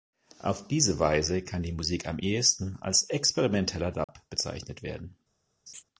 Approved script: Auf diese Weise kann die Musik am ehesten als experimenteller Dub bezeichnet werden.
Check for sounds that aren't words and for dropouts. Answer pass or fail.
fail